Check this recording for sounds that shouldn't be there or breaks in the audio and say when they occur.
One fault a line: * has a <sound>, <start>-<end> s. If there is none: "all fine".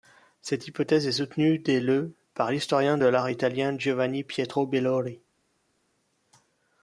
all fine